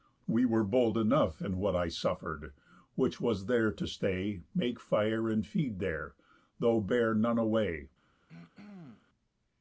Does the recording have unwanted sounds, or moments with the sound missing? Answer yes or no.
yes